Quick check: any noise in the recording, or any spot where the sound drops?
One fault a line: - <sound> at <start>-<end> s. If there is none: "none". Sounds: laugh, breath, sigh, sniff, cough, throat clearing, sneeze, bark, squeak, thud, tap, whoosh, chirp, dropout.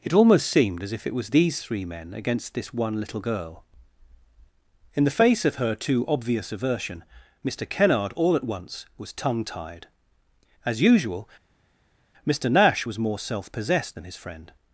none